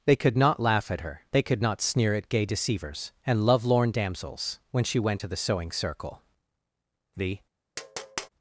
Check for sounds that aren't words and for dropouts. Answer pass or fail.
fail